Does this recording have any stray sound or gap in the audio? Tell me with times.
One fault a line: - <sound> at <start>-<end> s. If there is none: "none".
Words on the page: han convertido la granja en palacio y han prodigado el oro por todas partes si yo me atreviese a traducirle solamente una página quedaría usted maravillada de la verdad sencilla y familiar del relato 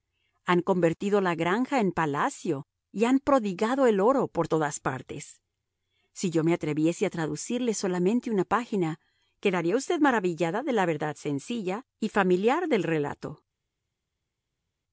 none